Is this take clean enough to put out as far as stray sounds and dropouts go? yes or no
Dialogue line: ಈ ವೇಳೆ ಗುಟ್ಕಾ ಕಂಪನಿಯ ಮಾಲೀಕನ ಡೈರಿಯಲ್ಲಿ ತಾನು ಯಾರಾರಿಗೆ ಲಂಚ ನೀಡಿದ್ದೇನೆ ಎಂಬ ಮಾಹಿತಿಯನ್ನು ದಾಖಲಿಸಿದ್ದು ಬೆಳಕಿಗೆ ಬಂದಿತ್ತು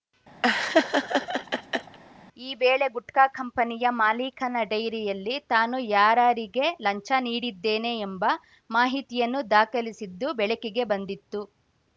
no